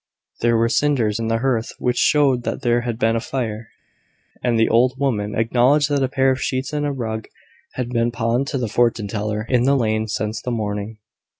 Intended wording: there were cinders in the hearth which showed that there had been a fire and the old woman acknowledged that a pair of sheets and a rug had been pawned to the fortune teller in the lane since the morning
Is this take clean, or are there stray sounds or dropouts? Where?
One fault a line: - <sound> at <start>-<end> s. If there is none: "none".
none